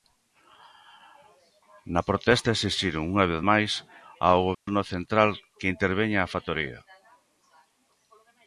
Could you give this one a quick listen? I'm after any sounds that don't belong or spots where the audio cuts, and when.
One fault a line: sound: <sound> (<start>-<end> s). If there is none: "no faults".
sound: dropout (4.5-4.7 s)